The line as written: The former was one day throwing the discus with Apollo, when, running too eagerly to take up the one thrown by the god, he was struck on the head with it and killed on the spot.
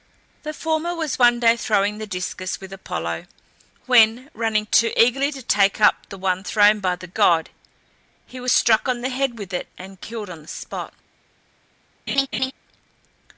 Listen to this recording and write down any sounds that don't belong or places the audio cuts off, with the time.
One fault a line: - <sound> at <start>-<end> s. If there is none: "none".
- laugh at 12.1-12.5 s